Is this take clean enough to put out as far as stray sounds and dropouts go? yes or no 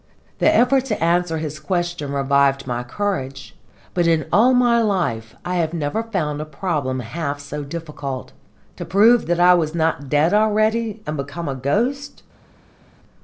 yes